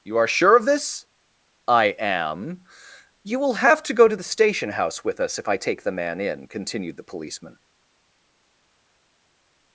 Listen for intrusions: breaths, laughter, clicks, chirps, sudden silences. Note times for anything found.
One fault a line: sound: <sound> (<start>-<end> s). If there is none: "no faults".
no faults